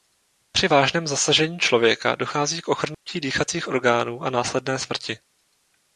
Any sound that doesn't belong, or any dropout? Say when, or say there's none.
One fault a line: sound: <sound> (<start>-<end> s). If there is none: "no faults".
sound: dropout (2.9-3.1 s)